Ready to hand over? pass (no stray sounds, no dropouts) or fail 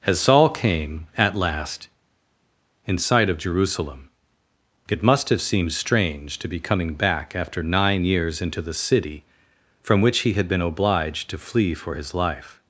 pass